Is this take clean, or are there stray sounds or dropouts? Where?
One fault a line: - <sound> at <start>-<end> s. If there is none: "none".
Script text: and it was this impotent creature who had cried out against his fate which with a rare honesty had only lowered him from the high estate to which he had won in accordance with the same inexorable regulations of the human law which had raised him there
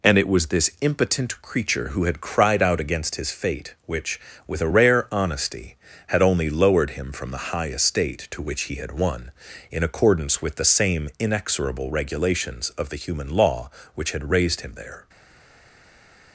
none